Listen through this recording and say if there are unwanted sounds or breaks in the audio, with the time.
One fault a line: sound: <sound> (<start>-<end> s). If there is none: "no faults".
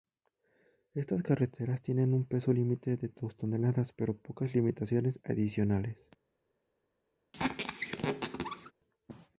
sound: squeak (7.3-8.7 s)